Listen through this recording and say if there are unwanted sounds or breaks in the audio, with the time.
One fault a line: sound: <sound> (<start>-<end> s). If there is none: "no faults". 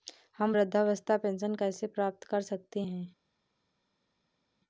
no faults